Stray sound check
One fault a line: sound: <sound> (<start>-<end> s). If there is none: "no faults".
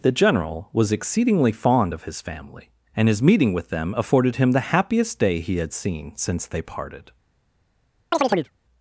sound: chirp (8.1-8.5 s)